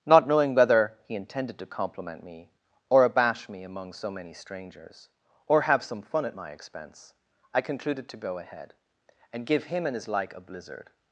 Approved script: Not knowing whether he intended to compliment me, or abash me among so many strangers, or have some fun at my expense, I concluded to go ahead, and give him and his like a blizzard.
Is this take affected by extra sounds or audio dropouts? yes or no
no